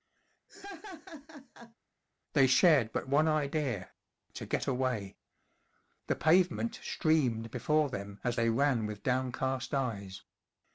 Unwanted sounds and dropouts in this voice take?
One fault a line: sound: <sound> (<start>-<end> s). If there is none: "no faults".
sound: laugh (0.5-1.8 s)